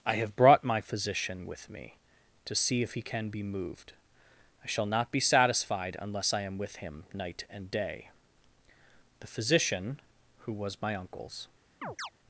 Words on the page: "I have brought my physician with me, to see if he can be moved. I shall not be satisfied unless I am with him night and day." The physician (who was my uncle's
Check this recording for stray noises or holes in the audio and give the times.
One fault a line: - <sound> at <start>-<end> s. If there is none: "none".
- chirp at 11.8-12.1 s